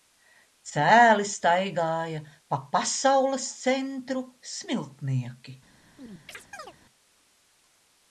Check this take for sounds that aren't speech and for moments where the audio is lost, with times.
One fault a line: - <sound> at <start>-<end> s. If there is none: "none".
- chirp at 6.0-6.7 s